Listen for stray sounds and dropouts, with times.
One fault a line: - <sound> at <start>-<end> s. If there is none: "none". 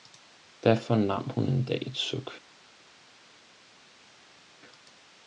none